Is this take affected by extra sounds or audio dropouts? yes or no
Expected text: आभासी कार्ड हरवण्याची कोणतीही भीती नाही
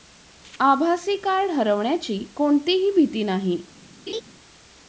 yes